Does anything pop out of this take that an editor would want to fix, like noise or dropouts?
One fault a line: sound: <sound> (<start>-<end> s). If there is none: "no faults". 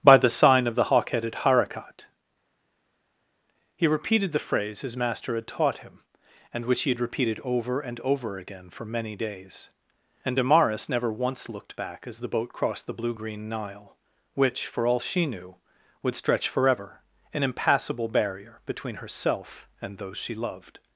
no faults